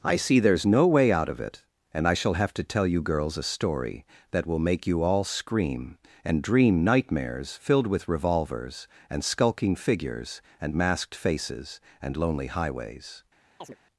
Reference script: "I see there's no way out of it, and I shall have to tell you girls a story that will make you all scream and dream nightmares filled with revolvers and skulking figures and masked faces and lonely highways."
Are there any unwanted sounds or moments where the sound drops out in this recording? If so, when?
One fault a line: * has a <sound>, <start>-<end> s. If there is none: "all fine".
* has a chirp, 13.6-13.8 s